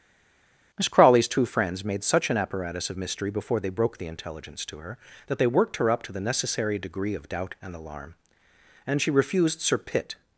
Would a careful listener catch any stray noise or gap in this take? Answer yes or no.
no